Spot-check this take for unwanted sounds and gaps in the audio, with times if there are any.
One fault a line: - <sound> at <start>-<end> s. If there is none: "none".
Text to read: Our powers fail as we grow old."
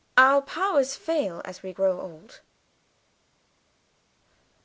none